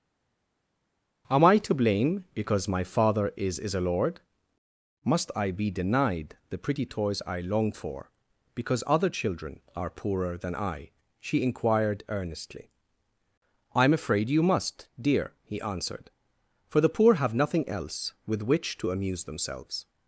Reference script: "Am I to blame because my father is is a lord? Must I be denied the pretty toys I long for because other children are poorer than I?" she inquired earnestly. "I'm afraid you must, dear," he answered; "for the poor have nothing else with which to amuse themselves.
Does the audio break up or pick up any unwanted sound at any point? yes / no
no